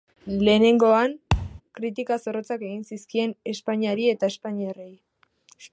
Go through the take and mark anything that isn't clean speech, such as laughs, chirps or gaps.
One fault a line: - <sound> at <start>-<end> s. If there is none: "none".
- thud at 1.3-1.6 s